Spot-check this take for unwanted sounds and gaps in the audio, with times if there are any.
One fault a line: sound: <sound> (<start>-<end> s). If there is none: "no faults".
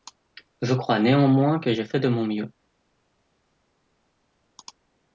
no faults